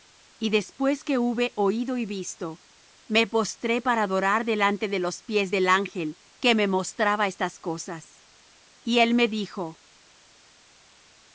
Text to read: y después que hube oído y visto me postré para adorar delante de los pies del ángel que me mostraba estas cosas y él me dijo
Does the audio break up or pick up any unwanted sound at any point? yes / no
no